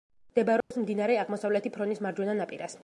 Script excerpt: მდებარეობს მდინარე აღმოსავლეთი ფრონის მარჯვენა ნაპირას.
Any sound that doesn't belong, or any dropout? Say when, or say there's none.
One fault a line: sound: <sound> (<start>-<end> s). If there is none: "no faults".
sound: dropout (0.6-0.7 s)